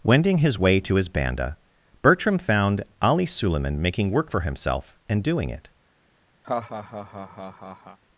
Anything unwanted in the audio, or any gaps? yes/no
yes